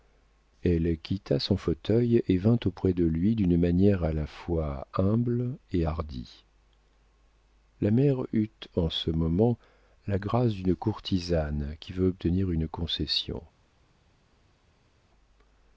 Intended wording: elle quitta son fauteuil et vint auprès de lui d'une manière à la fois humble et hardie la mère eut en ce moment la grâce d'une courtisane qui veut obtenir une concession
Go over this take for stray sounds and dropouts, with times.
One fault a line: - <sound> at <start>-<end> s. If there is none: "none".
none